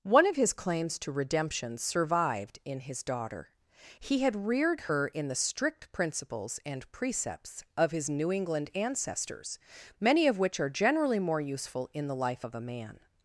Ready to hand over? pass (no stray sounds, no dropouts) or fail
pass